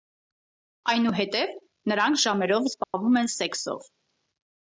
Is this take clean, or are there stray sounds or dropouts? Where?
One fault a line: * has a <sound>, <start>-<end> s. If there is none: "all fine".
* has a dropout, 2.8-2.9 s